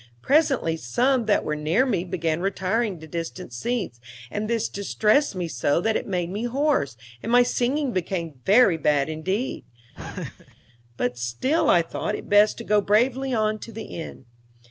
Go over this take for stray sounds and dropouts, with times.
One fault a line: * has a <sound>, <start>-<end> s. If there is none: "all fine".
* has a laugh, 9.9-10.5 s